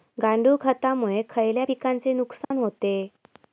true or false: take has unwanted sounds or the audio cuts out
true